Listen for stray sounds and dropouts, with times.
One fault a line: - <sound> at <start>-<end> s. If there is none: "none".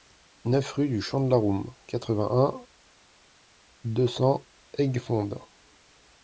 none